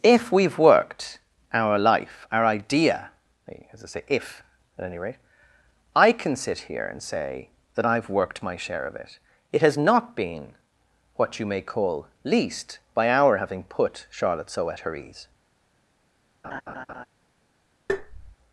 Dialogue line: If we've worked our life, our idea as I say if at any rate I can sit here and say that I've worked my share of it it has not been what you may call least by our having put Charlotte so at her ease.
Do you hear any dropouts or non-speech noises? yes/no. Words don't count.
yes